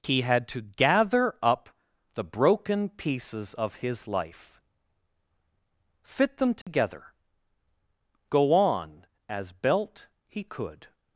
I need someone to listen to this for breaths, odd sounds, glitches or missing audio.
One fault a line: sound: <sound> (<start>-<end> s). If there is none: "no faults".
sound: dropout (6.6-6.7 s)